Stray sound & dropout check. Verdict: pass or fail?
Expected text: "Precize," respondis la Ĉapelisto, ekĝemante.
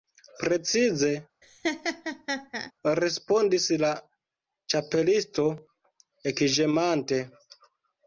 fail